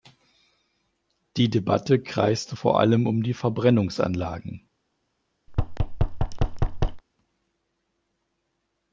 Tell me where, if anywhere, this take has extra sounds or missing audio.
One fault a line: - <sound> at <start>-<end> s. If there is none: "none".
- thud at 5.5-7.0 s